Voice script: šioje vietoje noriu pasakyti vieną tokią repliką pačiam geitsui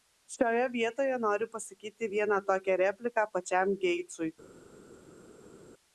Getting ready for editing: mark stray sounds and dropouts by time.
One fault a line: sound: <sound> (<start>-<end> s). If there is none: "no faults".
no faults